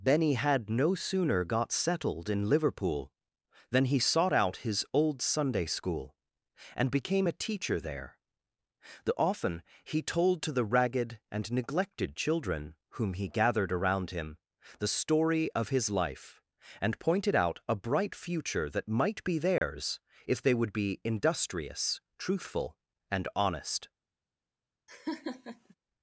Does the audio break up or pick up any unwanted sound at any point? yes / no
yes